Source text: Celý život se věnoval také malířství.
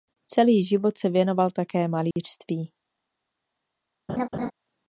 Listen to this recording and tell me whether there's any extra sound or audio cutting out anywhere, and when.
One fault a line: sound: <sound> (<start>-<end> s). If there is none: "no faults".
sound: dropout (2.1-2.2 s)
sound: laugh (4.1-4.5 s)